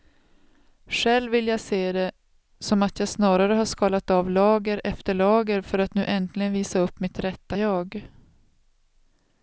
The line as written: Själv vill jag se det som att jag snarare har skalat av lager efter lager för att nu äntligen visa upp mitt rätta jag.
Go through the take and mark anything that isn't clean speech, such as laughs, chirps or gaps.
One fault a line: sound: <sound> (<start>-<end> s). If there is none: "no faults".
no faults